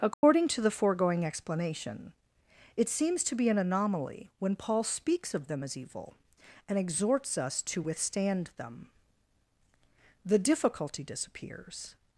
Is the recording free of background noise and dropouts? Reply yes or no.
no